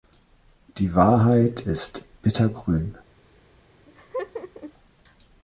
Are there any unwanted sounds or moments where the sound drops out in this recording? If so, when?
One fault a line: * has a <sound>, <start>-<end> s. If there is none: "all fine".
* has a laugh, 3.9-4.7 s